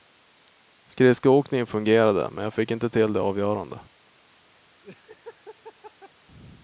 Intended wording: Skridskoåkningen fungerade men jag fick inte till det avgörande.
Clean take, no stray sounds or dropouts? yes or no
no